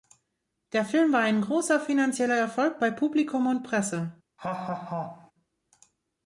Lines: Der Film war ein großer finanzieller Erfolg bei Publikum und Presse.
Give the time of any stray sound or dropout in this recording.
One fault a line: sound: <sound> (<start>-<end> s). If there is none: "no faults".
sound: laugh (4.4-5.3 s)